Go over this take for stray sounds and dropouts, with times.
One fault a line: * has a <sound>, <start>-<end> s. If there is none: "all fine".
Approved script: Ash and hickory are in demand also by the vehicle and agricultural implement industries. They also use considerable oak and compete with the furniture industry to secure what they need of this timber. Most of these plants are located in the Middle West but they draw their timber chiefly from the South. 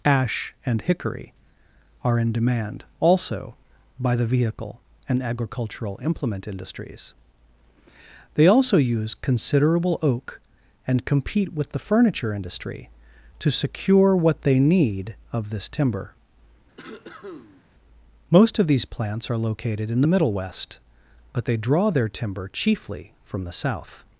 * has a cough, 16.8-17.6 s